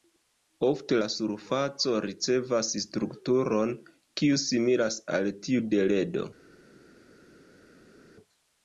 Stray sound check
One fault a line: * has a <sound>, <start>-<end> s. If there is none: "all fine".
all fine